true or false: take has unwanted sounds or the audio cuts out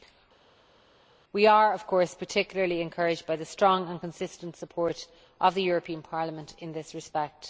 false